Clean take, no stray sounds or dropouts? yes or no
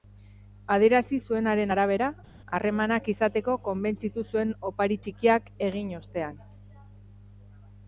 yes